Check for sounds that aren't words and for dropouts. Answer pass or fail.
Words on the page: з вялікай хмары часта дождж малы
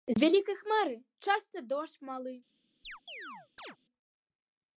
fail